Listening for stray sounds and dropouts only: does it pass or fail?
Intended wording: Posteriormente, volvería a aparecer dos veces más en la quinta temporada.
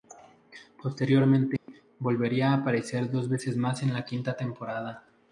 fail